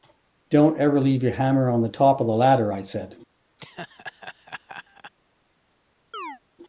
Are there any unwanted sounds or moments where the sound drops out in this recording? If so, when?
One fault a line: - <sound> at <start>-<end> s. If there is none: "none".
- laugh at 3.6-5.1 s
- chirp at 6.1-6.4 s